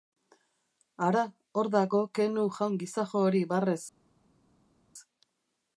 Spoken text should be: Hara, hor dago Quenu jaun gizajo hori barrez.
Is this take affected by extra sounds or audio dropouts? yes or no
no